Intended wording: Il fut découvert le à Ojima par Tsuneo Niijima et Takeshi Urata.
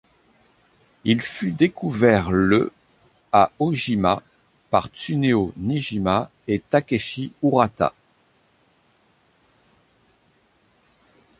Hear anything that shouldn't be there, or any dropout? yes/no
no